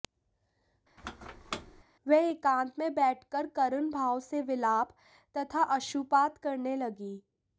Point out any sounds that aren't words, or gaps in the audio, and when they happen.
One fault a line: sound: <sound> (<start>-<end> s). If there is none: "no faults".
sound: squeak (1.0-1.8 s)